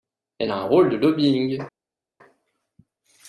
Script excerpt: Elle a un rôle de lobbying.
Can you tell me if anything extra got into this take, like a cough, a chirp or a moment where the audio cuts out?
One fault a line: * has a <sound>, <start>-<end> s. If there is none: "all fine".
all fine